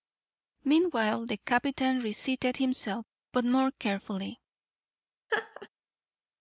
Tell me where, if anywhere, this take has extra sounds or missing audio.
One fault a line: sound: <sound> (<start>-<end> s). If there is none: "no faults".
sound: laugh (5.3-5.7 s)